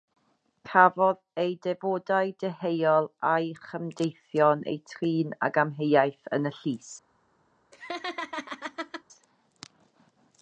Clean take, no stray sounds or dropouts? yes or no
no